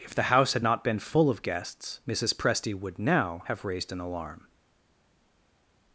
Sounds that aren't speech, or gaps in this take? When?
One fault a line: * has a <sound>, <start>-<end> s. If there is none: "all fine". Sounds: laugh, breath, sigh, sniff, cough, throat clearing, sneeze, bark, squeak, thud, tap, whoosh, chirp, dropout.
all fine